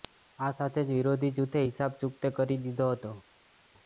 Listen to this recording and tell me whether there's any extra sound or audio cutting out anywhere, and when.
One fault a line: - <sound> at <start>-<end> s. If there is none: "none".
none